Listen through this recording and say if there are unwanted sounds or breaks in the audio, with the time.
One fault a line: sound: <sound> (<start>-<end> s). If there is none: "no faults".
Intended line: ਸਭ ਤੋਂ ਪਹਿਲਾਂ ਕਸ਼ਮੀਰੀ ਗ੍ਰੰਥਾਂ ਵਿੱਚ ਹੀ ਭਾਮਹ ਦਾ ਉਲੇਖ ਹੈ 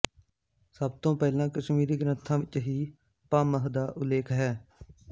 no faults